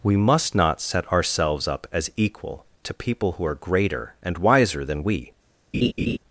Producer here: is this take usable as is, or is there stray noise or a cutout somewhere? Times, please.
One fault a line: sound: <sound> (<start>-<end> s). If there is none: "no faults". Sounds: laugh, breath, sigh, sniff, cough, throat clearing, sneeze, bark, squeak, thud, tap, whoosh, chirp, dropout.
sound: laugh (5.7-6.2 s)